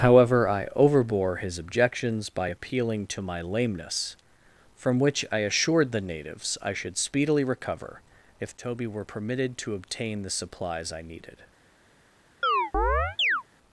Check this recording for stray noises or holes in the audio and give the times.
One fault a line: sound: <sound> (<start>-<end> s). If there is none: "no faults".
sound: chirp (12.4-13.4 s)